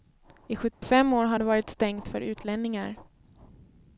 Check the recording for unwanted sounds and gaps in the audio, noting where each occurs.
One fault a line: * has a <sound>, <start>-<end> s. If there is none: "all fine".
* has a dropout, 0.7-0.8 s